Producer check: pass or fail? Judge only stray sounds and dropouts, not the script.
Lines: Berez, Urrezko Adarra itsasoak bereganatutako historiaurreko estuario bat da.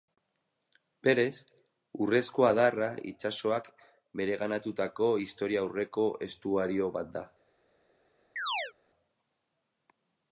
fail